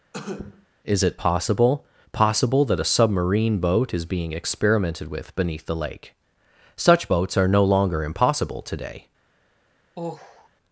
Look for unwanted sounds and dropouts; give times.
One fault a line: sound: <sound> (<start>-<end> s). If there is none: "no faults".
sound: cough (0.1-0.7 s)
sound: sigh (9.9-10.5 s)